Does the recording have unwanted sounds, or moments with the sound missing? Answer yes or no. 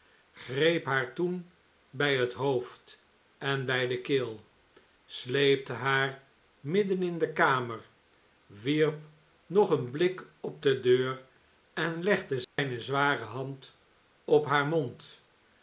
yes